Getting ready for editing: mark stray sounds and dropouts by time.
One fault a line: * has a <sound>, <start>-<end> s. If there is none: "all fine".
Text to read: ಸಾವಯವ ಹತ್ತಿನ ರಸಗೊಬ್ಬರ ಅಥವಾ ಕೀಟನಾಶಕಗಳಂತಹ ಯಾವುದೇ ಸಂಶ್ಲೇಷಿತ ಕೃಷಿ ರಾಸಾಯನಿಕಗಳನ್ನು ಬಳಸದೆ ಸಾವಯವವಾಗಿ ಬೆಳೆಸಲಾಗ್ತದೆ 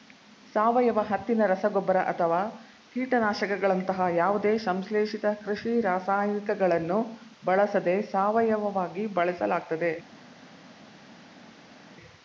all fine